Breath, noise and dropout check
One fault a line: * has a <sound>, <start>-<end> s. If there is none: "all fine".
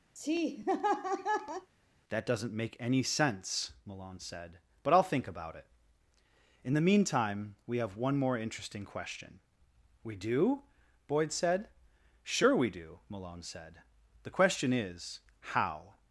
* has a laugh, 0.2-1.7 s